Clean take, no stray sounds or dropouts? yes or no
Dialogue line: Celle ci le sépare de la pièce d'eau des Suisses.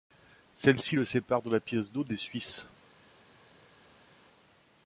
yes